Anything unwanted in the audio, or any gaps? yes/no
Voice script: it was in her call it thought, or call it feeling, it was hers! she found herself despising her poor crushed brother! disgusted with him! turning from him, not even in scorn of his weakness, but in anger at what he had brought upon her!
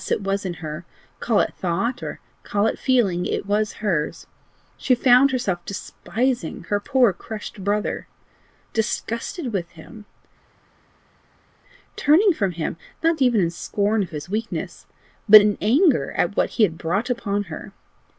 no